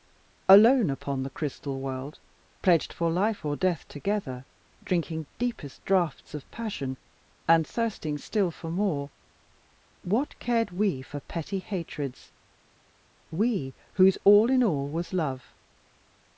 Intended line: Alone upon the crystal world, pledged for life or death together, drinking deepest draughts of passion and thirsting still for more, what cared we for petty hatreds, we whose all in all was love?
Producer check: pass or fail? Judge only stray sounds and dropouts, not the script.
pass